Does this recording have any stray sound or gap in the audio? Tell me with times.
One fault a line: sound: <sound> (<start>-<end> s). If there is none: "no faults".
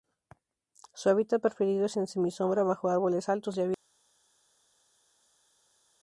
no faults